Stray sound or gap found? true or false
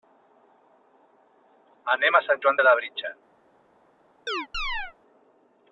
true